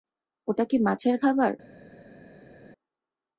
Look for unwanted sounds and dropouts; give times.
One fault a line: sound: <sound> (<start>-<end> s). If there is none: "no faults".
no faults